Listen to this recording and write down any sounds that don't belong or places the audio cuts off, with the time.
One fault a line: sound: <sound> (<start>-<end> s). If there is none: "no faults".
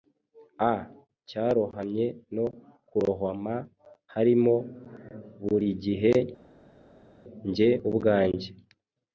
no faults